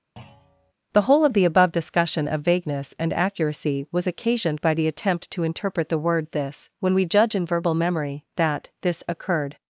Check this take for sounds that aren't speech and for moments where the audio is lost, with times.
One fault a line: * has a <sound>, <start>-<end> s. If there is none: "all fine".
* has a thud, 0.2-0.7 s